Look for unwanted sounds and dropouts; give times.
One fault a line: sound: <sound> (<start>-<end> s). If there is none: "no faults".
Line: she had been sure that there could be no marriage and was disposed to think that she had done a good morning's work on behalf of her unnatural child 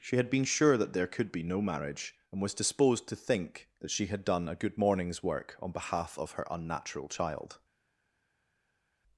no faults